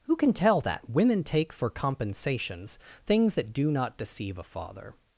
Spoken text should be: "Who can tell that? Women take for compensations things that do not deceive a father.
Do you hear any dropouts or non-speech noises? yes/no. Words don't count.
no